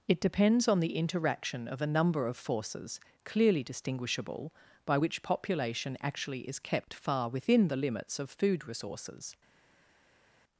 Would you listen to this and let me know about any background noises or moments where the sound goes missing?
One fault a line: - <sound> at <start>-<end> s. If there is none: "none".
none